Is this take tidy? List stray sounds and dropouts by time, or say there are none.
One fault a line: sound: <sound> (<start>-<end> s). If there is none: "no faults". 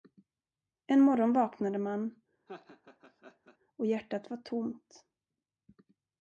sound: laugh (2.5-3.6 s)